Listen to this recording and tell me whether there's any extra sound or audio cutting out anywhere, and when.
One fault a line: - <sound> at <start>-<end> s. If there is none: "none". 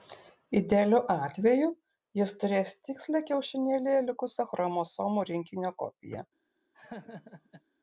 - laugh at 6.7-7.6 s